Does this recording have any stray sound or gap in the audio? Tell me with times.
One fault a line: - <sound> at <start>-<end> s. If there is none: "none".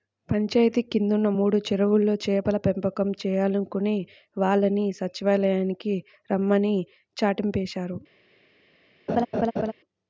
- laugh at 9.1-9.7 s